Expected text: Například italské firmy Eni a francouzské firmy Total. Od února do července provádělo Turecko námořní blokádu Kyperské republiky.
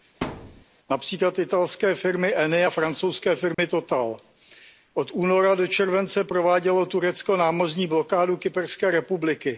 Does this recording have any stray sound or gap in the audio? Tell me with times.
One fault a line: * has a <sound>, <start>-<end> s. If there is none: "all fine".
* has a thud, 0.2-0.6 s
* has a dropout, 3.5-3.6 s